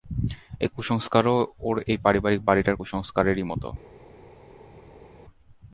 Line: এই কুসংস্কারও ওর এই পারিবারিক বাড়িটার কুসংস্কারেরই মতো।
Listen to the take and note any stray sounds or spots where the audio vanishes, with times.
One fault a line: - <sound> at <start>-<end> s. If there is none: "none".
none